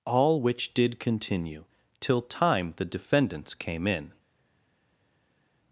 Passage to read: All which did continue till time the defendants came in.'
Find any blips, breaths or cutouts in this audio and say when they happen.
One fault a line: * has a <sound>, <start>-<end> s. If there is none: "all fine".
all fine